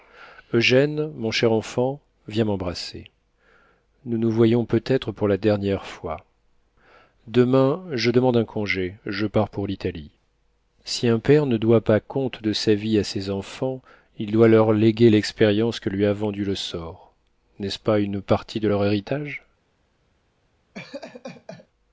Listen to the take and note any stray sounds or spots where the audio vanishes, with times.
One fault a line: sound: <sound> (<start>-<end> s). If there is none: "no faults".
sound: laugh (20.7-21.7 s)